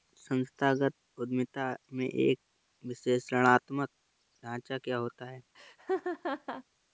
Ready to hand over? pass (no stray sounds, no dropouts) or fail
fail